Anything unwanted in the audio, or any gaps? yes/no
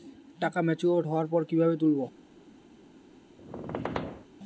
yes